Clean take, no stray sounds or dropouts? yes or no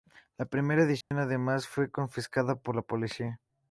no